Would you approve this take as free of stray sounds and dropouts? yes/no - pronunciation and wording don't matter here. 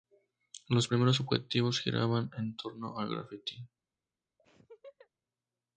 no